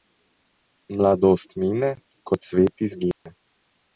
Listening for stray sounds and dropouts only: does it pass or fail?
fail